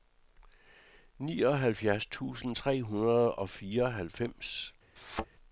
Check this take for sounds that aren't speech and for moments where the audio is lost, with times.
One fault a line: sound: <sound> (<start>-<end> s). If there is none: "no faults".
sound: thud (5.0-5.3 s)